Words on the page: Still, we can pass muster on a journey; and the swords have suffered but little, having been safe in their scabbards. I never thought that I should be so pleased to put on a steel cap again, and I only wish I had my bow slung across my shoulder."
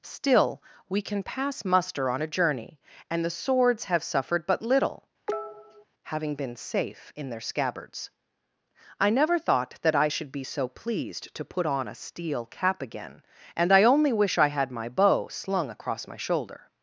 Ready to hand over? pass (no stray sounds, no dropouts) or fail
fail